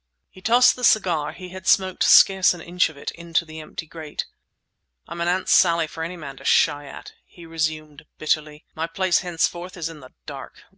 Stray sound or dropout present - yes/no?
no